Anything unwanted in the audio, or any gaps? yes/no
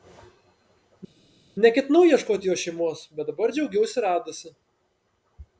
no